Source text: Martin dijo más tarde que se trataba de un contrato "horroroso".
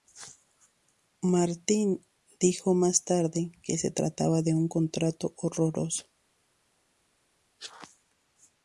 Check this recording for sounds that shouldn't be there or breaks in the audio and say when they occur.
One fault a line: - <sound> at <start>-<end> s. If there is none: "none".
none